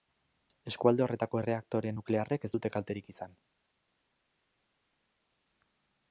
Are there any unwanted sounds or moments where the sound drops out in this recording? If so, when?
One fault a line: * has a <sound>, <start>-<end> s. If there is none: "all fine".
all fine